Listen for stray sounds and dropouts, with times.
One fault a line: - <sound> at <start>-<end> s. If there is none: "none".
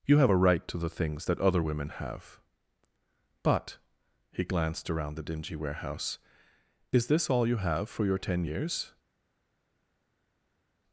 none